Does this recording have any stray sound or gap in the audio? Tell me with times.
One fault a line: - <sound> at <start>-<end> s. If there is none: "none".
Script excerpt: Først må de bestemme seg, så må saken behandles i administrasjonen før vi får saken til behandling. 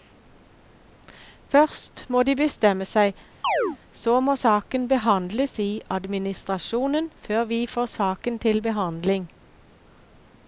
- chirp at 3.4-3.8 s